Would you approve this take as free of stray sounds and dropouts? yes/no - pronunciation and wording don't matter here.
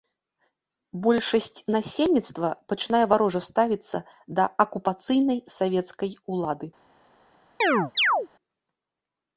no